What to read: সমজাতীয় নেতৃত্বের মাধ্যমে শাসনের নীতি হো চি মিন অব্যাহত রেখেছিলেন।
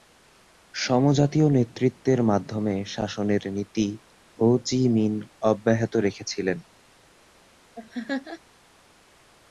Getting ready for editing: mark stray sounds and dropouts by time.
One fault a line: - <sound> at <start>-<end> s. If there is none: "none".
- laugh at 7.7-8.4 s